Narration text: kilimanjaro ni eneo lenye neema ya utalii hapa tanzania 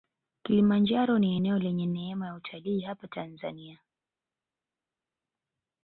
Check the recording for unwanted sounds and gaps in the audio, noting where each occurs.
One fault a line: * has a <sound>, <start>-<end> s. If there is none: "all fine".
all fine